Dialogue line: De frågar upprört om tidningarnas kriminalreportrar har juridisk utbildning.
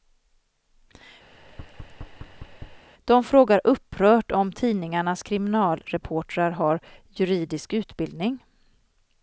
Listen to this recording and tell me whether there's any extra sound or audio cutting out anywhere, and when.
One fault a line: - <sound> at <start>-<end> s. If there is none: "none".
- thud at 1.3-2.9 s